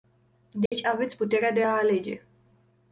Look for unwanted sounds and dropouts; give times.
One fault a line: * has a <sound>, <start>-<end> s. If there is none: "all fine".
* has a dropout, 0.7-0.7 s